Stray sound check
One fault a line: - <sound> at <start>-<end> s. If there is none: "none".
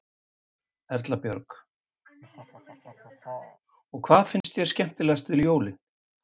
- laugh at 2.0-3.6 s
- dropout at 4.4-4.4 s